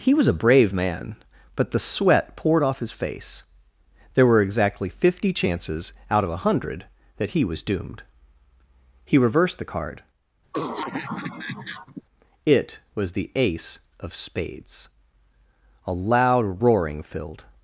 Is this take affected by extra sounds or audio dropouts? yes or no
yes